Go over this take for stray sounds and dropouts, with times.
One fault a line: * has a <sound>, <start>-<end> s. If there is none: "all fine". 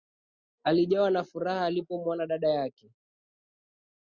all fine